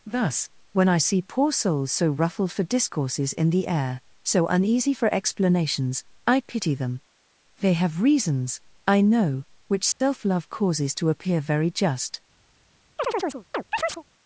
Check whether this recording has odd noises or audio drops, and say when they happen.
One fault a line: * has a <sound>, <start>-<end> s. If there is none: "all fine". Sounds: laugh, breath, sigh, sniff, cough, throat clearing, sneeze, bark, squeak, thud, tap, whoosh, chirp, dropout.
* has a dropout, 9.9-10.0 s
* has a chirp, 13.0-14.0 s